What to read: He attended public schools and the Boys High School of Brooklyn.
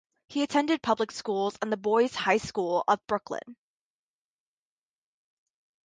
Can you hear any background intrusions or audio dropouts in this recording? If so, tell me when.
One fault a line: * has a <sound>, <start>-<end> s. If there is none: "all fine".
all fine